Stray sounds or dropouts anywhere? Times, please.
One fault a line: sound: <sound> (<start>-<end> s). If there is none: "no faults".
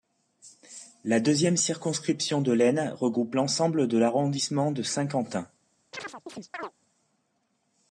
sound: chirp (5.9-6.7 s)